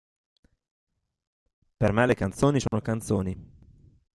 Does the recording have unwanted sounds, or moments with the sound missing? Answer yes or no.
yes